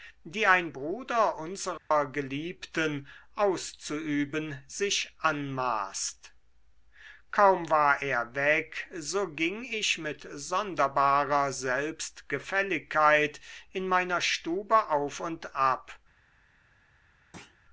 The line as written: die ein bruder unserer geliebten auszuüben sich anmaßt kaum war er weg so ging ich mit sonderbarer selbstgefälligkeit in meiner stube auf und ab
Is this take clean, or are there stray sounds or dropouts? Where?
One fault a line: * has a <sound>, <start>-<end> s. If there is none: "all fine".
* has a dropout, 1.8-1.9 s
* has a thud, 17.3-17.6 s